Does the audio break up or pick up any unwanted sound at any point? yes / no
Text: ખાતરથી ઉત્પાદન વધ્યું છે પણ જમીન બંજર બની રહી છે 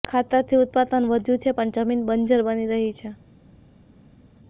no